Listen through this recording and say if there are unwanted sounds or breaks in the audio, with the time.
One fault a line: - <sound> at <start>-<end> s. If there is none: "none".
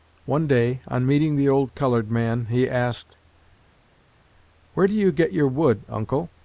none